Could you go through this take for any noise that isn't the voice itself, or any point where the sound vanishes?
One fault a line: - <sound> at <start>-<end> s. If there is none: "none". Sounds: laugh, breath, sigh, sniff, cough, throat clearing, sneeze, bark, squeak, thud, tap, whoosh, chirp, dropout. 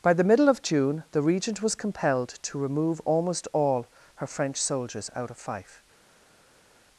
none